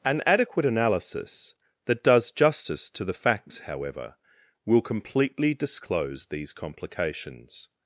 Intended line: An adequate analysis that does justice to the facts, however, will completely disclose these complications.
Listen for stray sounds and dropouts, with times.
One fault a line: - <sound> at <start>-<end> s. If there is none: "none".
none